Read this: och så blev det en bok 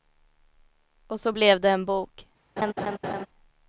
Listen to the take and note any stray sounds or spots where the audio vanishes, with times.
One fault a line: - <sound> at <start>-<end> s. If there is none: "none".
- laugh at 2.6-3.3 s